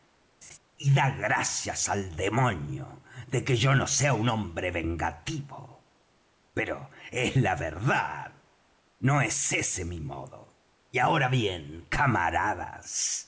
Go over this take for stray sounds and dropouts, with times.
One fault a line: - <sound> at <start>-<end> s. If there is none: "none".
- laugh at 0.4-0.6 s